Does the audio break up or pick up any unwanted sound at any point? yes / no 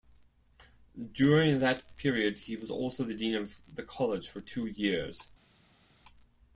no